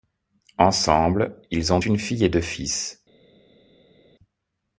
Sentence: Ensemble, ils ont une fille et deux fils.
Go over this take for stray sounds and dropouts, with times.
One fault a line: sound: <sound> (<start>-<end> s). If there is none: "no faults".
no faults